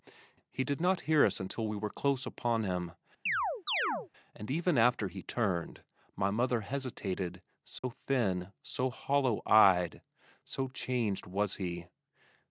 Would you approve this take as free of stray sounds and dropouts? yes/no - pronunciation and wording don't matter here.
no